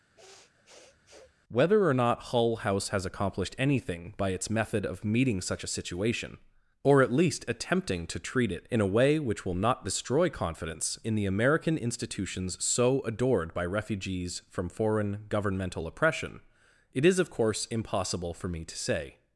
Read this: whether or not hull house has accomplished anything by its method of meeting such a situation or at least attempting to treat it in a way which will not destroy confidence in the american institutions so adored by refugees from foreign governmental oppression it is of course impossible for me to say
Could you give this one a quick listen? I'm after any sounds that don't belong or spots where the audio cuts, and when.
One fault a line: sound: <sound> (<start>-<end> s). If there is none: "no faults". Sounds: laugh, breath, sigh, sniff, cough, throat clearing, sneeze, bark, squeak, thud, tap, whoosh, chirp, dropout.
sound: sniff (0.2-1.3 s)